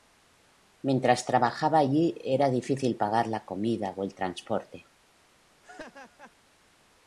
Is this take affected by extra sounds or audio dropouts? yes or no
yes